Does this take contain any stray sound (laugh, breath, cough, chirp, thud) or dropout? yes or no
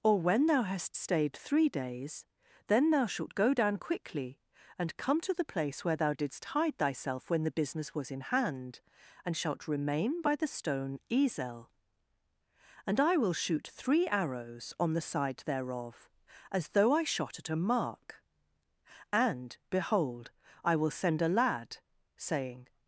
no